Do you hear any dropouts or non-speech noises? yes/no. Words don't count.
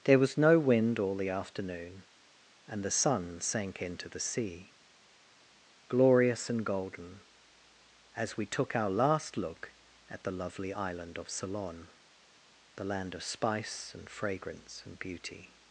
no